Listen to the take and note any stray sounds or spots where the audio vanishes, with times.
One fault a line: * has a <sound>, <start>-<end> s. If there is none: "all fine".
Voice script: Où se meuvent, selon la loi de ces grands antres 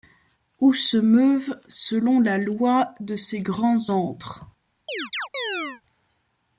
* has a chirp, 4.9-5.8 s